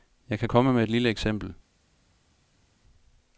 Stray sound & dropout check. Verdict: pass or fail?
pass